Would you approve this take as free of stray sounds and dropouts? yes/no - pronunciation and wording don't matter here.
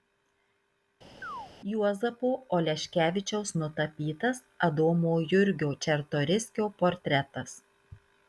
no